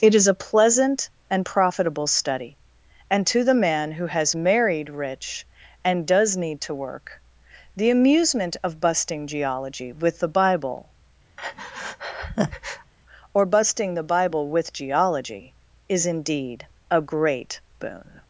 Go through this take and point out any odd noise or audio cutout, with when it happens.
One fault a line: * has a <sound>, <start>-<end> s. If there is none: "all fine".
* has a breath, 11.4-12.9 s